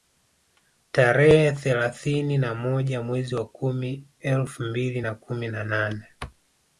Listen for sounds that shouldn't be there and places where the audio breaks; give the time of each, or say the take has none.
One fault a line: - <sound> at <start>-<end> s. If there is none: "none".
none